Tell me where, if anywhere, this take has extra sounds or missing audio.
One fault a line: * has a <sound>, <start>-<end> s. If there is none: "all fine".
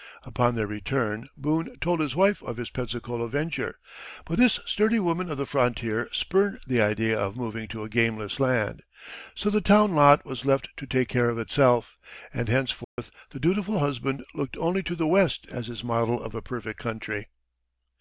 * has a dropout, 12.8-13.0 s